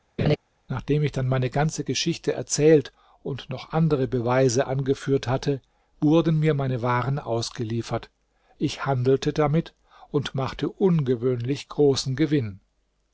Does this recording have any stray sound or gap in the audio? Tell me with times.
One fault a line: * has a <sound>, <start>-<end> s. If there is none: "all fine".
* has a laugh, 0.2-0.4 s